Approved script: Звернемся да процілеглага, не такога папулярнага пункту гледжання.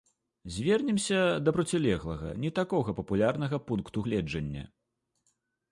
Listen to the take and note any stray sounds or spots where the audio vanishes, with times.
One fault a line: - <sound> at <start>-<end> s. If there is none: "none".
none